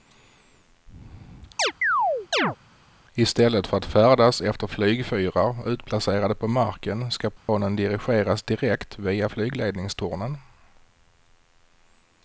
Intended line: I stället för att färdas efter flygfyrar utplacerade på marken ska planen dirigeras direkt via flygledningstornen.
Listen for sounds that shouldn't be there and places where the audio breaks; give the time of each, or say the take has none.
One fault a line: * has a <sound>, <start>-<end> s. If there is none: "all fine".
* has a chirp, 1.6-2.6 s
* has a dropout, 7.4-7.5 s